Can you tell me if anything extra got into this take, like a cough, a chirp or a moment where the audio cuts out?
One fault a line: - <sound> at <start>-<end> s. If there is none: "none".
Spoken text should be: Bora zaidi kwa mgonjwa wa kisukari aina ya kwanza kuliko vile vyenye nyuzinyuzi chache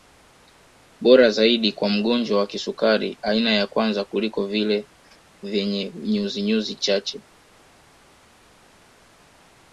none